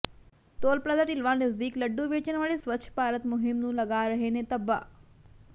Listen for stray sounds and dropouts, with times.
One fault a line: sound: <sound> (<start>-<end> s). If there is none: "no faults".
no faults